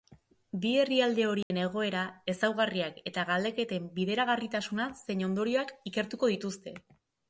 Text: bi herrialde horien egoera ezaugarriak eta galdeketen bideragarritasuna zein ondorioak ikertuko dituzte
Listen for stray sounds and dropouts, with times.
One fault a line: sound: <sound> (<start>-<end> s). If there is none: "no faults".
sound: dropout (1.4-1.5 s)